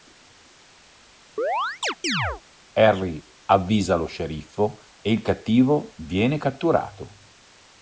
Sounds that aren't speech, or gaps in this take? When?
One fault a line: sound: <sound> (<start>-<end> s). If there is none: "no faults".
sound: chirp (1.4-2.4 s)